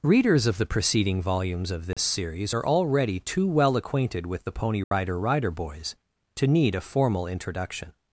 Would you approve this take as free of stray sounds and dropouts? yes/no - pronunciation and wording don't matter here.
no